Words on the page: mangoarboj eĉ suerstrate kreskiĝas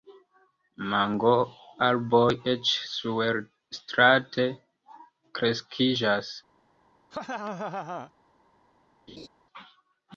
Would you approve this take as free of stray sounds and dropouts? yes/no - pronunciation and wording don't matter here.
no